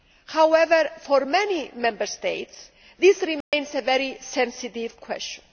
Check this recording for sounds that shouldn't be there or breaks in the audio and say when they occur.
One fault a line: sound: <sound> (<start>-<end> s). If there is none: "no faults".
sound: dropout (3.4-3.5 s)